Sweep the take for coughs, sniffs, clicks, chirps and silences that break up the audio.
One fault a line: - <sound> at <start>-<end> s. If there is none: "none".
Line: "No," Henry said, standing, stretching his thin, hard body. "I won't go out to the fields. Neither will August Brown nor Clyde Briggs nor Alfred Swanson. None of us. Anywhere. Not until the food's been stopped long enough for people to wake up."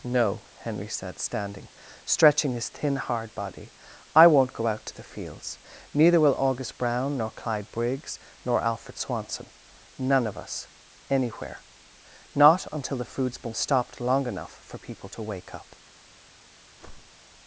- whoosh at 16.8-17.2 s